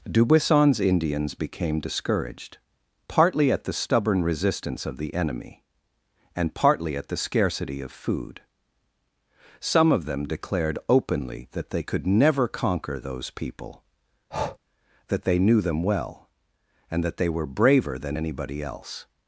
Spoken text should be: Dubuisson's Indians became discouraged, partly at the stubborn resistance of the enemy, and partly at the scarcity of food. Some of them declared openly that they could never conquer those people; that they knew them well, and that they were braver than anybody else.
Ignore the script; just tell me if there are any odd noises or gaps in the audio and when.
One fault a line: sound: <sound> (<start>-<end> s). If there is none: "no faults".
sound: breath (14.3-14.6 s)